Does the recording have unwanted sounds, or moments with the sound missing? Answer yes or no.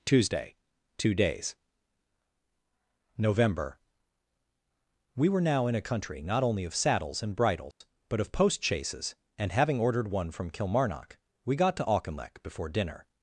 yes